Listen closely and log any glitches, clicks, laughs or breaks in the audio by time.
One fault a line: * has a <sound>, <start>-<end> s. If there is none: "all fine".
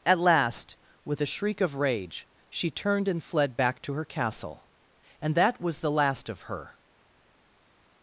all fine